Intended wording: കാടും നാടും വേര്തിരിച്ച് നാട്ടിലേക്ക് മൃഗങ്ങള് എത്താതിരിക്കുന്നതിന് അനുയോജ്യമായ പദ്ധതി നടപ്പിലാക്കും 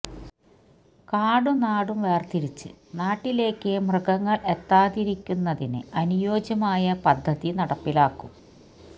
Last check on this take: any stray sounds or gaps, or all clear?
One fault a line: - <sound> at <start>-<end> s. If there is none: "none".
none